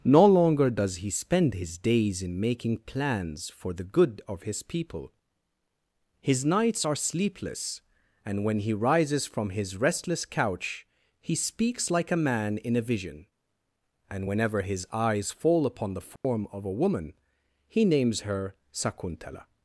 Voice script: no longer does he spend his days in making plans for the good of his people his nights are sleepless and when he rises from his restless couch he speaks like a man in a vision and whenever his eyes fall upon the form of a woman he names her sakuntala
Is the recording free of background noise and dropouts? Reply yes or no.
no